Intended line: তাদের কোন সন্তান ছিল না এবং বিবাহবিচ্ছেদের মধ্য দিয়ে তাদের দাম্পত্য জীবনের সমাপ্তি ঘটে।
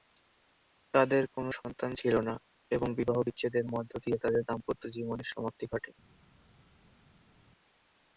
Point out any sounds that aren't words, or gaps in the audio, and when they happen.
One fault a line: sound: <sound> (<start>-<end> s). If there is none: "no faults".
no faults